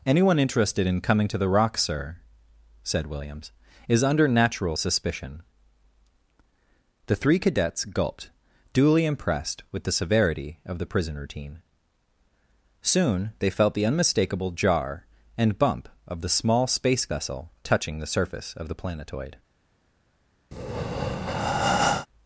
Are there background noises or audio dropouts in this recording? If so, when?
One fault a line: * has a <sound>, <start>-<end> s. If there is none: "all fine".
* has a breath, 20.5-22.1 s